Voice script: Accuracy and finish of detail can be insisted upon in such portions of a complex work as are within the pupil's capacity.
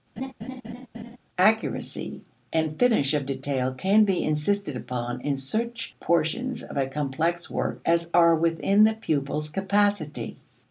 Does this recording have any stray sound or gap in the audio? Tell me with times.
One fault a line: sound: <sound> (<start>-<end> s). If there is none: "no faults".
sound: laugh (0.2-1.2 s)